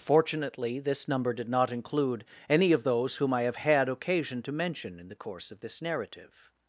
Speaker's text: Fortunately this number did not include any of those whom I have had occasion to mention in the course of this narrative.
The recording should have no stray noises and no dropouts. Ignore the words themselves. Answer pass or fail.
pass